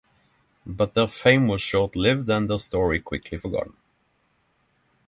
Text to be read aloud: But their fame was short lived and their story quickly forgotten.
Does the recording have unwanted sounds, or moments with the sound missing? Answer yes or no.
no